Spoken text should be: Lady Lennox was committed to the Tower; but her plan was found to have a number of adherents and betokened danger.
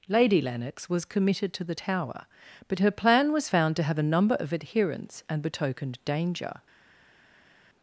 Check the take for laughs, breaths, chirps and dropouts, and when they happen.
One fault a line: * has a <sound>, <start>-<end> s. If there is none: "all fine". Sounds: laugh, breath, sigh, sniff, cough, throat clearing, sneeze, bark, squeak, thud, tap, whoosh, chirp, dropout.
all fine